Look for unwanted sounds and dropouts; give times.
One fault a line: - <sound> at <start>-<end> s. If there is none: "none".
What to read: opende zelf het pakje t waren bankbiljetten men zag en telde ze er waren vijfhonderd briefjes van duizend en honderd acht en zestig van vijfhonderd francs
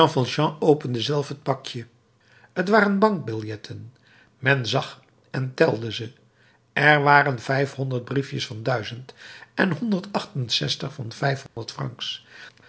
- dropout at 11.5-11.6 s